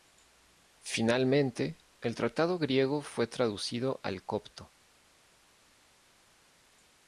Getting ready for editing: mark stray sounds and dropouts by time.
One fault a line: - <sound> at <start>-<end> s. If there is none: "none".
none